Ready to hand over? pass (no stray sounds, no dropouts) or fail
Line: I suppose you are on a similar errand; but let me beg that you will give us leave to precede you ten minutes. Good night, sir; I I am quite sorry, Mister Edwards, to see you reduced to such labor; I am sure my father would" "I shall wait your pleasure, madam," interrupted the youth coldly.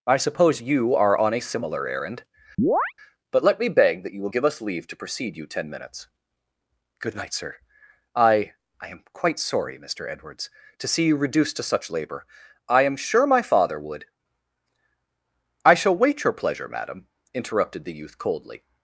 fail